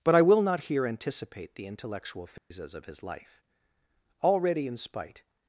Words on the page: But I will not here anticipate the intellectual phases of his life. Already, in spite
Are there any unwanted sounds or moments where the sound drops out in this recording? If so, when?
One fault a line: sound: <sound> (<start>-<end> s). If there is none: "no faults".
sound: dropout (2.4-2.5 s)